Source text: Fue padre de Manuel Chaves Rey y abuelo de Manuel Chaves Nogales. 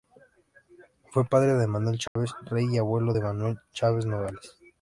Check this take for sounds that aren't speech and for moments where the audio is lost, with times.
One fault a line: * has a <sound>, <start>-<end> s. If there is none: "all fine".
* has a dropout, 2.1-2.2 s